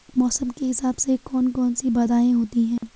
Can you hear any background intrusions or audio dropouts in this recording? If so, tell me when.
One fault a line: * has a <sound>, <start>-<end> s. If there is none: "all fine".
* has a dropout, 2.8-2.8 s